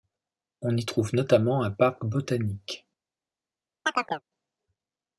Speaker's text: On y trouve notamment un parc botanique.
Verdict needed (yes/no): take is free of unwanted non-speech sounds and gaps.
no